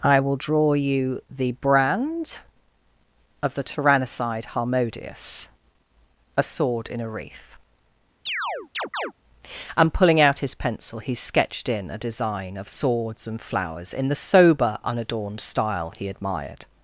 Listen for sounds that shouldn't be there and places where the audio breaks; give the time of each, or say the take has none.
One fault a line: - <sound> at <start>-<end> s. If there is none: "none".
- chirp at 8.3-9.1 s